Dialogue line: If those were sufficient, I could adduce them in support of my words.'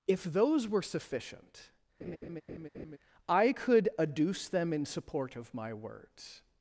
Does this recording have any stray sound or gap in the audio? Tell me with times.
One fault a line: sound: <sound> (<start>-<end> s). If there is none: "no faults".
sound: laugh (2.0-3.0 s)